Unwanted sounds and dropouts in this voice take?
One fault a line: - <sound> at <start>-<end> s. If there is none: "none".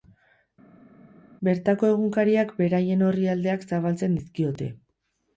none